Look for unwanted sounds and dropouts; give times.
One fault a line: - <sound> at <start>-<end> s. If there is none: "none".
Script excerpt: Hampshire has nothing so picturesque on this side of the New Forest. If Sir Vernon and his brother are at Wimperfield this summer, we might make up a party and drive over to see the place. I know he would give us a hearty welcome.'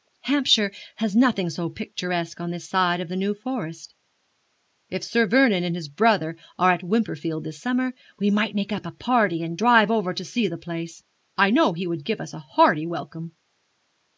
none